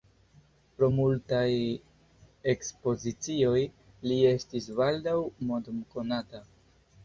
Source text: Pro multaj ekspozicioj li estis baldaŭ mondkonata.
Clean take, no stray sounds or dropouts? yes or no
yes